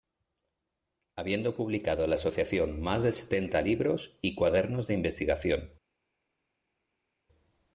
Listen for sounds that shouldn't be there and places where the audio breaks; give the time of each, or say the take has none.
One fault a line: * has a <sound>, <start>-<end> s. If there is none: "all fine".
all fine